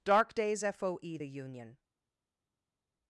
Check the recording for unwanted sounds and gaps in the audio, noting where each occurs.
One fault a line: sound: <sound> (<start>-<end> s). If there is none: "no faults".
no faults